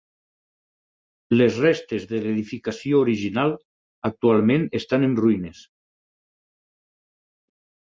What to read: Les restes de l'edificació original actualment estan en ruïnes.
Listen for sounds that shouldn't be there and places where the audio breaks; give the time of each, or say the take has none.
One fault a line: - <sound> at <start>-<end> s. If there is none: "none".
none